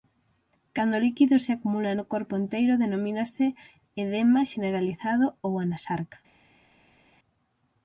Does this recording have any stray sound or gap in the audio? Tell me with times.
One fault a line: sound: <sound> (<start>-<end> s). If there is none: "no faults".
no faults